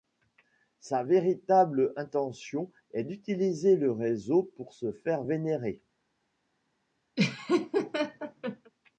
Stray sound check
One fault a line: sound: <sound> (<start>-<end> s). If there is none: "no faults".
sound: laugh (7.2-8.7 s)